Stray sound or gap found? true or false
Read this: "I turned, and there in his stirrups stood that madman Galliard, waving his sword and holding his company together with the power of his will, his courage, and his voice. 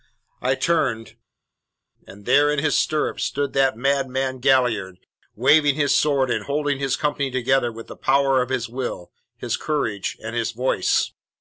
false